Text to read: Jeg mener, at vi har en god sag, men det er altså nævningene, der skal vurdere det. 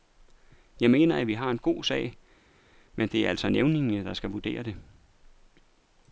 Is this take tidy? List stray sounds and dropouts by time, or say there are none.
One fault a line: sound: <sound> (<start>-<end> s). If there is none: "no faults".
no faults